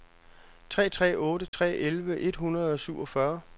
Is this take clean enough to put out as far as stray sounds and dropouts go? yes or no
no